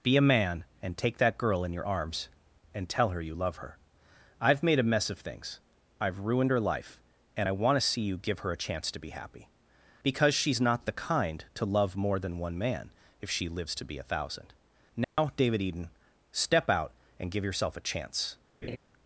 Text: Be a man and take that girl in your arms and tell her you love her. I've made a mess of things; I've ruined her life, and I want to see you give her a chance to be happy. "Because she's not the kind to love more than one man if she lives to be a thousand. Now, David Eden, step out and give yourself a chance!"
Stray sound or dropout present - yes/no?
yes